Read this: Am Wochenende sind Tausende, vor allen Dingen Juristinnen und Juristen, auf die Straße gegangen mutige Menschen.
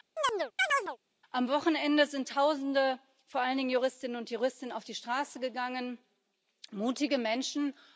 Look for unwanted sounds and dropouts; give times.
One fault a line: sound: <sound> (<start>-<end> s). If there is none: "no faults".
sound: chirp (0.2-1.0 s)